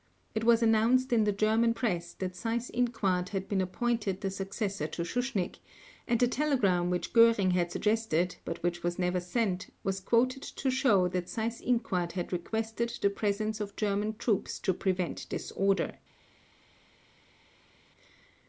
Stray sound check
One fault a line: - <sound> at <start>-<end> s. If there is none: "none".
none